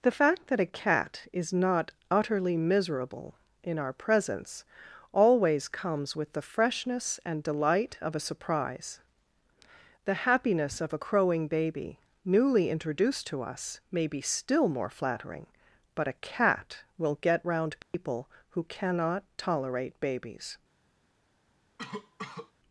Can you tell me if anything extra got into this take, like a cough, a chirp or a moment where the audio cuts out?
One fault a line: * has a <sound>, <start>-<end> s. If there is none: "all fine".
* has a dropout, 17.8-17.9 s
* has a cough, 21.8-22.5 s